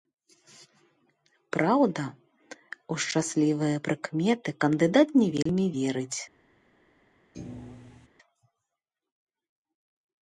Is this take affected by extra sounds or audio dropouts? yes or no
yes